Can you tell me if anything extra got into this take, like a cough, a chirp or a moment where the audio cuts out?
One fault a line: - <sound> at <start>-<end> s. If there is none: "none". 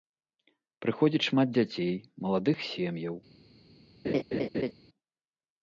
- laugh at 4.0-4.7 s